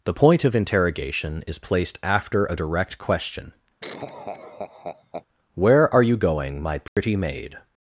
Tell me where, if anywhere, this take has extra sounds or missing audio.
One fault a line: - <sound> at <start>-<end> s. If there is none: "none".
- laugh at 3.8-5.3 s
- dropout at 6.9-7.0 s